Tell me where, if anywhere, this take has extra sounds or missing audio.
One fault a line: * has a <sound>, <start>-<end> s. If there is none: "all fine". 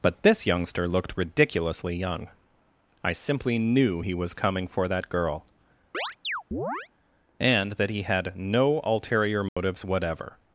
* has a chirp, 5.9-6.9 s
* has a dropout, 9.5-9.6 s